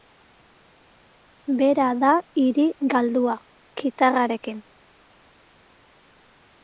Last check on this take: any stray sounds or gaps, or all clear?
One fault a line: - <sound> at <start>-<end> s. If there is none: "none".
none